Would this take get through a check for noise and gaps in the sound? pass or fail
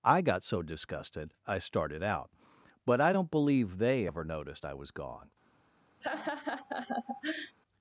fail